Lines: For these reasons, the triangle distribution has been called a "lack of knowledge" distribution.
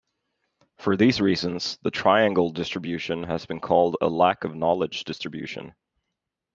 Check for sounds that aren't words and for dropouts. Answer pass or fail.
pass